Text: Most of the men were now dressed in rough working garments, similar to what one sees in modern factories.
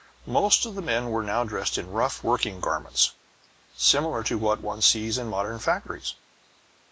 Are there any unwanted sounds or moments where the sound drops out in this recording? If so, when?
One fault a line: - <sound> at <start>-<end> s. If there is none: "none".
none